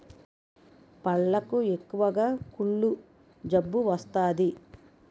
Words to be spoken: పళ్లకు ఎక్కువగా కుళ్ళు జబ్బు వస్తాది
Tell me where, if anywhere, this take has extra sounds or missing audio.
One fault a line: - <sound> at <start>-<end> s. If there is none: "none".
none